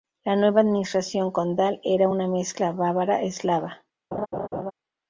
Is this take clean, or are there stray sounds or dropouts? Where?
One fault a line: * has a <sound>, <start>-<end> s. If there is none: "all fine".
* has a laugh, 4.1-4.7 s